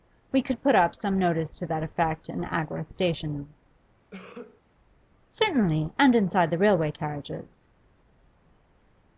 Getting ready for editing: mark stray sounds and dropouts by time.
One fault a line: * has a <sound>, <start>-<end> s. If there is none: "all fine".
* has a cough, 4.1-4.6 s